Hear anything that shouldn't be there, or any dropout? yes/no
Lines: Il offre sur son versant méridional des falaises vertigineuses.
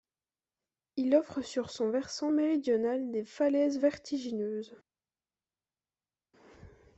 no